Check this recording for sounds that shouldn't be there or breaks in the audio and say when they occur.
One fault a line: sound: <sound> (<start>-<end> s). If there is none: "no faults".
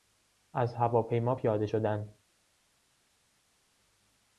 no faults